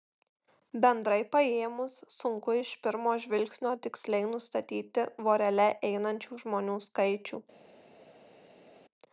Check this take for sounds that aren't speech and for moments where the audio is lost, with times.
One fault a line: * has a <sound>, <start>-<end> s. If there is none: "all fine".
all fine